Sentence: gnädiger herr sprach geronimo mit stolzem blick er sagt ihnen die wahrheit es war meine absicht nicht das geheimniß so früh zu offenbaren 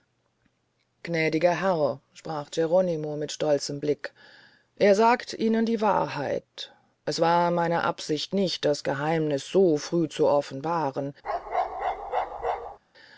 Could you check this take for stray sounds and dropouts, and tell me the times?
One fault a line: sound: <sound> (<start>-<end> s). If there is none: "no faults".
sound: bark (11.2-12.8 s)